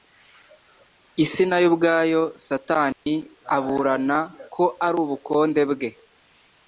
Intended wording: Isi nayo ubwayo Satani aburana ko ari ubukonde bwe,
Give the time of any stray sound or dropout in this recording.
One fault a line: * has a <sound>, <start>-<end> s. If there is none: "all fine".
* has a dropout, 2.9-3.1 s